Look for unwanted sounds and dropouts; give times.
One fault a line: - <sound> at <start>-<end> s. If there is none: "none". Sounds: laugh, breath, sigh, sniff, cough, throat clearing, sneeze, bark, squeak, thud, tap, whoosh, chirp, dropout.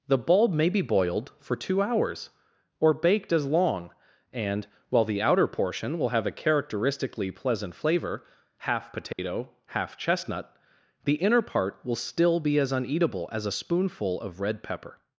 - dropout at 9.1-9.2 s